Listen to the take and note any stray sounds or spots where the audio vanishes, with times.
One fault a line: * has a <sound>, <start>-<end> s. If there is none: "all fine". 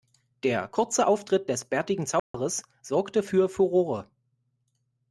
* has a dropout, 2.2-2.3 s